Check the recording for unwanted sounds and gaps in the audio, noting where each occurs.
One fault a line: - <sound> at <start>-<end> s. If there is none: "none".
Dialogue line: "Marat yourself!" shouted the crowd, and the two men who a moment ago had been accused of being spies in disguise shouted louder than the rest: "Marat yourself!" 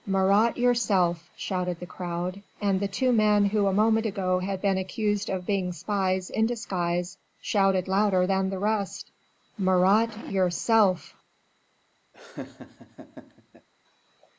- laugh at 12.1-13.7 s